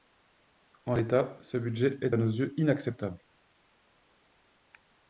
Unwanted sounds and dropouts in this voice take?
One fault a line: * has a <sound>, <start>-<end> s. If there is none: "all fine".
all fine